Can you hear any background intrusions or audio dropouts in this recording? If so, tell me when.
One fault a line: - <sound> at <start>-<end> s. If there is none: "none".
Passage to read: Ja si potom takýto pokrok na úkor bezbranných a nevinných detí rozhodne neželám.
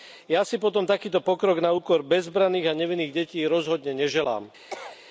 - cough at 4.7-5.0 s